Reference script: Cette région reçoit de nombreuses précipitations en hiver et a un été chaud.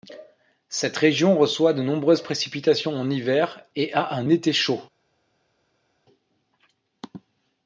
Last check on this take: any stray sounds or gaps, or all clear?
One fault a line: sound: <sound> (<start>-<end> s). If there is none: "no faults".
no faults